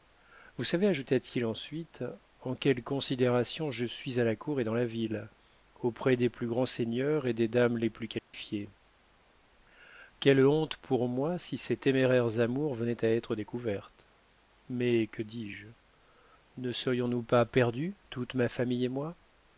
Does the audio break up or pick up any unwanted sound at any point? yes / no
yes